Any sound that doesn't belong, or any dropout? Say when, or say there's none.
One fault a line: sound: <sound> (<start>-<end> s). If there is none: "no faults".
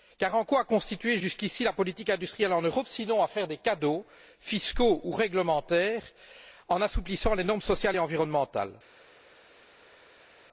no faults